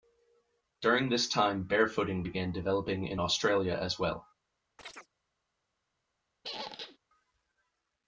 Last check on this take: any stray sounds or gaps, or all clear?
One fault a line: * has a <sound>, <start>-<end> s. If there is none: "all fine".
* has a chirp, 4.8-5.1 s
* has a squeak, 6.4-7.0 s